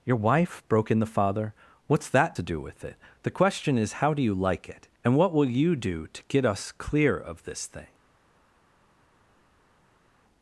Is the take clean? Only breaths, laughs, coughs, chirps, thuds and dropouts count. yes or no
yes